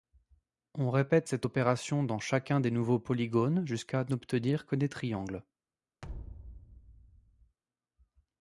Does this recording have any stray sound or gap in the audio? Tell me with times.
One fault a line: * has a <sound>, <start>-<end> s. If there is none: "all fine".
* has a thud, 6.0-7.6 s